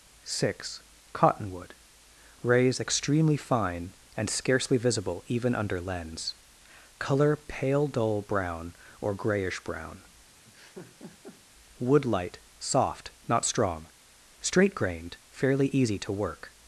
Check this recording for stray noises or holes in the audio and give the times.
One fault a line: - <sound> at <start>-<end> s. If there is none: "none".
- laugh at 10.4-11.4 s